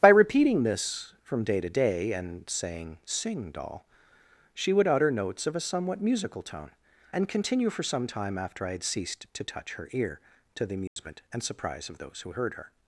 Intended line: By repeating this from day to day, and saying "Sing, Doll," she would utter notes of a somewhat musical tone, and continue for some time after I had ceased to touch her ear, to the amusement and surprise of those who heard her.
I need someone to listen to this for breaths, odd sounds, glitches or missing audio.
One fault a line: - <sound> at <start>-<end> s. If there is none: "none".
- dropout at 10.9-11.0 s